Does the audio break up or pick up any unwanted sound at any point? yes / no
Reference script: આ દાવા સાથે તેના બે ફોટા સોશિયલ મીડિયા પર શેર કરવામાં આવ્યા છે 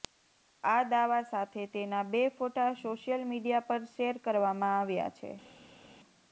no